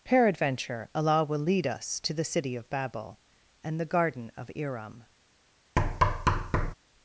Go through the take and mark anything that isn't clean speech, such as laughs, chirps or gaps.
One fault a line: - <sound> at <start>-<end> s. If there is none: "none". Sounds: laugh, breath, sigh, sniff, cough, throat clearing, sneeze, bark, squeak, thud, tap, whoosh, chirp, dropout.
- thud at 5.8-6.7 s